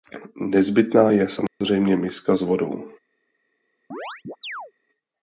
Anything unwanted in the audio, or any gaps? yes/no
yes